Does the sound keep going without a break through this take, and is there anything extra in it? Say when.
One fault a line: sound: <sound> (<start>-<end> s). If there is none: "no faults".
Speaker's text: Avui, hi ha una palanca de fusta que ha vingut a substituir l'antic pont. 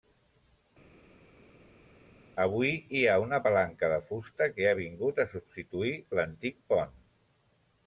no faults